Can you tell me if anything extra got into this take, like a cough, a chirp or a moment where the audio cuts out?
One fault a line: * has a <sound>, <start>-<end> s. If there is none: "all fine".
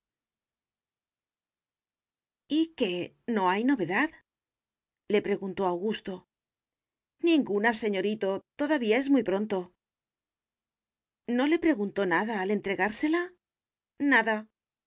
all fine